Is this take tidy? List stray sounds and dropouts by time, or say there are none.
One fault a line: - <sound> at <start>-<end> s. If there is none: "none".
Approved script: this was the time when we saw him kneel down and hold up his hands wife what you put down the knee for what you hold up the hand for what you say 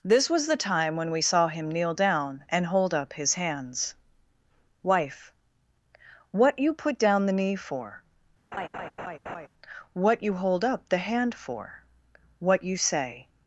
- laugh at 8.5-9.5 s